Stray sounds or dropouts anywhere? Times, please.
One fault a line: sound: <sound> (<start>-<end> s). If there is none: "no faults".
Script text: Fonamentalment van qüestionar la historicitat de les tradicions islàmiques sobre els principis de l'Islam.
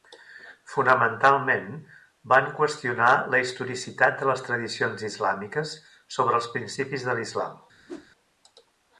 sound: whoosh (7.9-8.1 s)